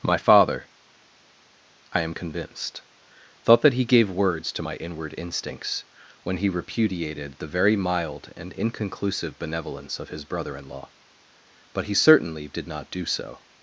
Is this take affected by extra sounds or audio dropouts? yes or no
no